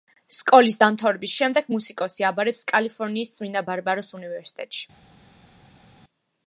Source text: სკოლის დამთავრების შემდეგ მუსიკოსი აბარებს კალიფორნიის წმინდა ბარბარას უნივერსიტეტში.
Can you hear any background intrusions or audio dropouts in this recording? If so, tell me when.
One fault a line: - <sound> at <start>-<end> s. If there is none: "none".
none